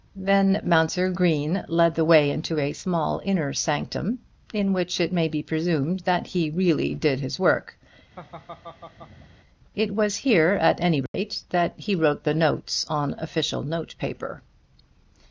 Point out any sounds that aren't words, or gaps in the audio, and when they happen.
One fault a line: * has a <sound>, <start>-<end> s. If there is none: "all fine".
* has a laugh, 8.2-9.4 s
* has a dropout, 11.1-11.1 s